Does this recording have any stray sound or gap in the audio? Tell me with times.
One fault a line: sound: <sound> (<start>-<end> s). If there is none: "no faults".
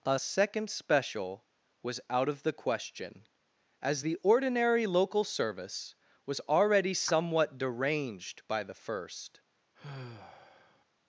sound: sigh (9.8-10.9 s)